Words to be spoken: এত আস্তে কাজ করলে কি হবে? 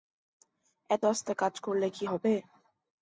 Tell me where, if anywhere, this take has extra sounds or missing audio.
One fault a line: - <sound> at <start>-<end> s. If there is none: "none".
none